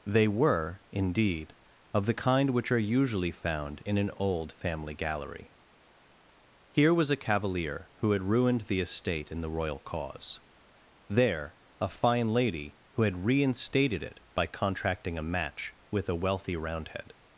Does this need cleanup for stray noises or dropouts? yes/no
no